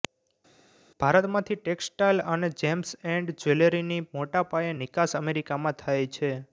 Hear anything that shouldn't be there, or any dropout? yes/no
no